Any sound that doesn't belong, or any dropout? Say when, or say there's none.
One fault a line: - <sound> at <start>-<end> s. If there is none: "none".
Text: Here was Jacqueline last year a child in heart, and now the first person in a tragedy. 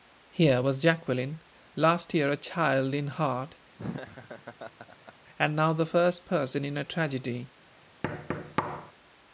- laugh at 3.8-5.1 s
- thud at 8.0-8.9 s